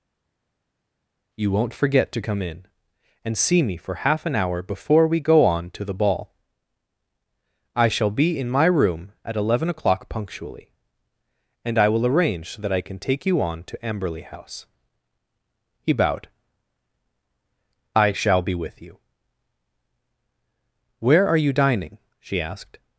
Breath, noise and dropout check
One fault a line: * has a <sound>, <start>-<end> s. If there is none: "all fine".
all fine